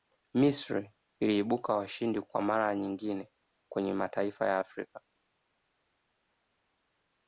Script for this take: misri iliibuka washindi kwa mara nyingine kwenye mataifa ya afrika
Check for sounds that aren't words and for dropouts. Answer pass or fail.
pass